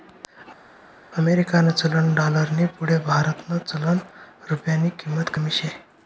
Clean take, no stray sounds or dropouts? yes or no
yes